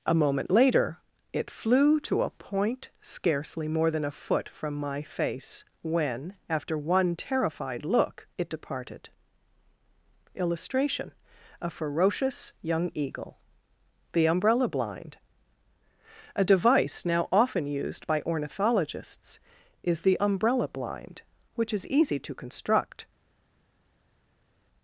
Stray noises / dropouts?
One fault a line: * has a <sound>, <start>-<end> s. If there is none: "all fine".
all fine